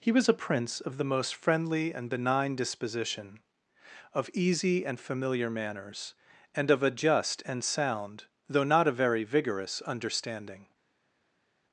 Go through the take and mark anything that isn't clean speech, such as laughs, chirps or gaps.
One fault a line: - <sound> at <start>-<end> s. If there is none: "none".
none